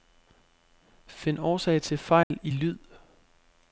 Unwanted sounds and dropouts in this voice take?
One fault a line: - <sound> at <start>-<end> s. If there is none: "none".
- dropout at 2.2-2.3 s